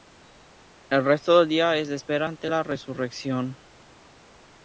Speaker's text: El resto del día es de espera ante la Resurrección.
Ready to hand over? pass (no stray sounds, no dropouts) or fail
pass